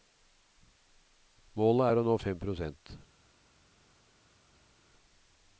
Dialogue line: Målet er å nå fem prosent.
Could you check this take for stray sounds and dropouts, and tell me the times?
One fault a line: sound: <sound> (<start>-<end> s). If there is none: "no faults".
no faults